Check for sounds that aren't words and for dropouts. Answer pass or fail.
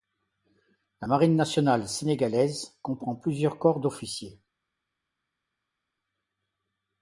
pass